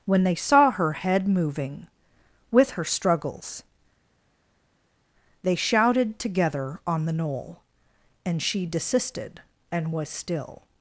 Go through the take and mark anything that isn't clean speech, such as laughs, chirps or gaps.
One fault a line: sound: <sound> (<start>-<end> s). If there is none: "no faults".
no faults